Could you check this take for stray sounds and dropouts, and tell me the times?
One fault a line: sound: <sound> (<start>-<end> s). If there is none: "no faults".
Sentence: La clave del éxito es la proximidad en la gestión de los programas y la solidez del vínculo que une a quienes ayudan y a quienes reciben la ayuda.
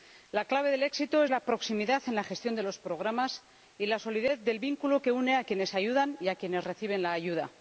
no faults